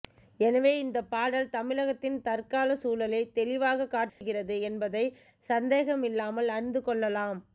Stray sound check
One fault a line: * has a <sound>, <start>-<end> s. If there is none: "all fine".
* has a dropout, 4.1-4.2 s